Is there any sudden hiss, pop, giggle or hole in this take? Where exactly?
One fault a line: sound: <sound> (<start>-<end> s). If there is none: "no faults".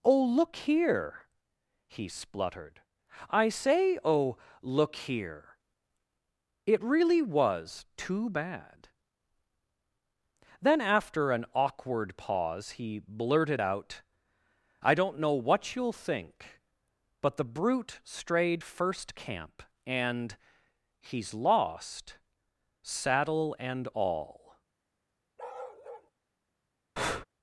sound: bark (25.4-26.1 s)
sound: breath (27.0-27.2 s)